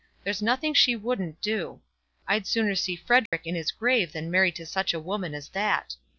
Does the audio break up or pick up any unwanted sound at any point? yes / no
yes